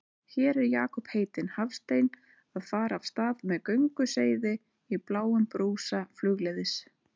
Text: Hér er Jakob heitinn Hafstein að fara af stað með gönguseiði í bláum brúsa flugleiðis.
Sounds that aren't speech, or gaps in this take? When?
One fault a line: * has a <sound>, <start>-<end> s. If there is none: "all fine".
all fine